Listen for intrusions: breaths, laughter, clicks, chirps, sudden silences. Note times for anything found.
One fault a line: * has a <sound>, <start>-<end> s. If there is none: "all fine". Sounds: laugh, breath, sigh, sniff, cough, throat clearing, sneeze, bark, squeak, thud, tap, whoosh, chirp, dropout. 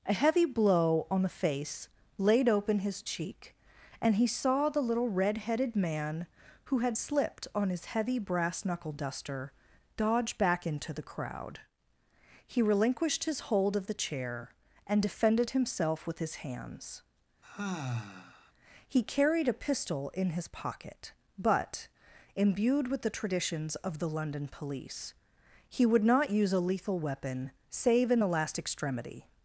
* has a sigh, 17.4-18.5 s